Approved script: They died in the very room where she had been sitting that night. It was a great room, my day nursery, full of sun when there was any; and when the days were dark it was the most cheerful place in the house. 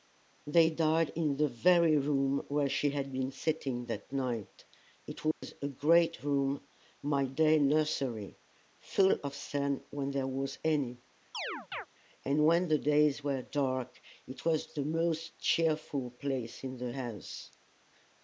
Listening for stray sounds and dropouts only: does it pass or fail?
fail